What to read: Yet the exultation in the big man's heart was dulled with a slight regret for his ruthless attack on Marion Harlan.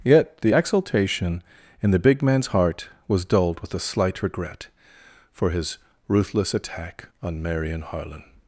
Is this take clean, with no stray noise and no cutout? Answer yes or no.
yes